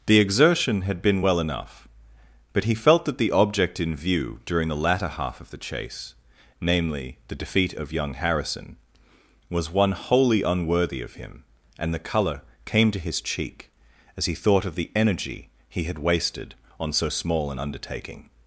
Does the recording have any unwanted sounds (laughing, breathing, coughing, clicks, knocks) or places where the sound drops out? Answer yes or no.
no